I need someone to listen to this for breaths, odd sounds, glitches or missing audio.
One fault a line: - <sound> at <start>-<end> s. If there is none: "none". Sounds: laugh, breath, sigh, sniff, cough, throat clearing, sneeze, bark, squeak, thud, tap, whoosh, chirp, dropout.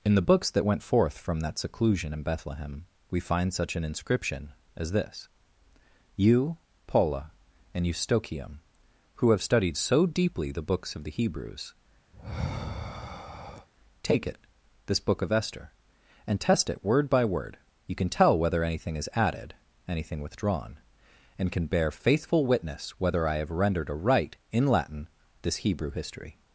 - sigh at 12.1-13.7 s